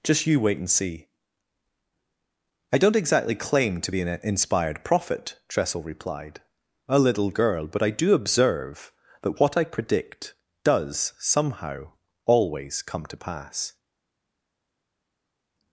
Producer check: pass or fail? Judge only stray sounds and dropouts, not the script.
pass